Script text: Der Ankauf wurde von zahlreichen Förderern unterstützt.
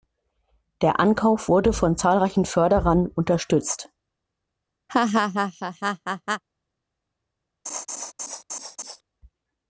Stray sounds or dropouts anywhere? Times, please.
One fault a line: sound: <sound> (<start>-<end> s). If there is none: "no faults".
sound: laugh (4.9-6.4 s)
sound: laugh (7.7-9.0 s)